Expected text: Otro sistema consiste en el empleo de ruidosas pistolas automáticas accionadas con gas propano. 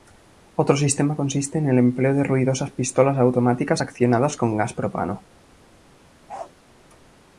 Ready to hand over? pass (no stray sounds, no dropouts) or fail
fail